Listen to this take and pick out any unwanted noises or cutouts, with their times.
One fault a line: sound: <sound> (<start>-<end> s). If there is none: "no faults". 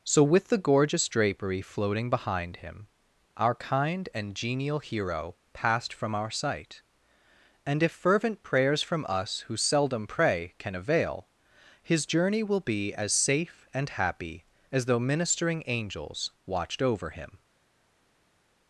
no faults